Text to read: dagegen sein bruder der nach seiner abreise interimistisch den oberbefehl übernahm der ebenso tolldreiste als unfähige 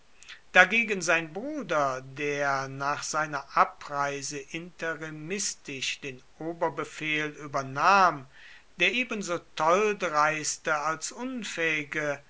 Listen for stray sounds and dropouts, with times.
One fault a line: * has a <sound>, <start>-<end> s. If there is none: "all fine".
all fine